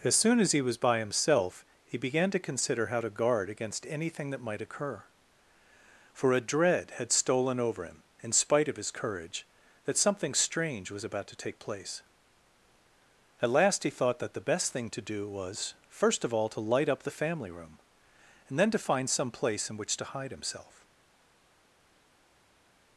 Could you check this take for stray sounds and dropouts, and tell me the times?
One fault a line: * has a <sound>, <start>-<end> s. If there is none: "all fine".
all fine